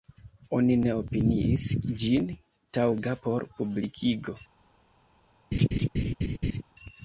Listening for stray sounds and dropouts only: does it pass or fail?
fail